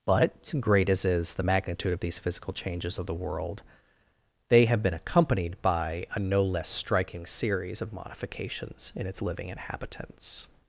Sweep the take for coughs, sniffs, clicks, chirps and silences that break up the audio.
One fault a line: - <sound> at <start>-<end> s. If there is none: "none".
none